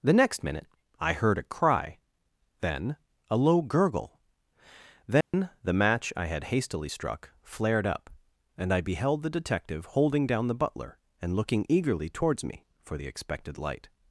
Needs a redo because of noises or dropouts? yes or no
yes